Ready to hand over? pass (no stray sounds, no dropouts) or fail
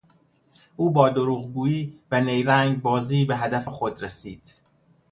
pass